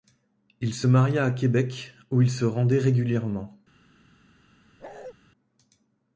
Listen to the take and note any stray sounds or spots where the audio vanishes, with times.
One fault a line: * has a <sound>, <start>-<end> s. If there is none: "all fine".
* has a bark, 4.8-5.1 s